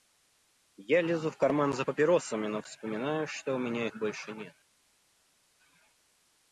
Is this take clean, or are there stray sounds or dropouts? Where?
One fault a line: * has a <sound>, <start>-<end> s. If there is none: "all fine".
all fine